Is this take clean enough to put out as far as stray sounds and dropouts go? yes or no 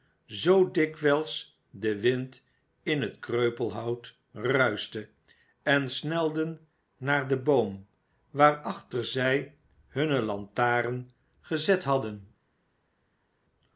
yes